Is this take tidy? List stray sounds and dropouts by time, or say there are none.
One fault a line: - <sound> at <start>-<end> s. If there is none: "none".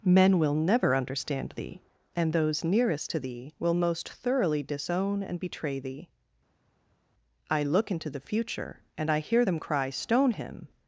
none